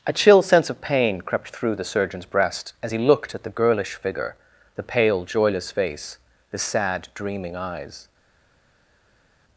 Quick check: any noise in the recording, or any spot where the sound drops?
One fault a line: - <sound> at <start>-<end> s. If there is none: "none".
none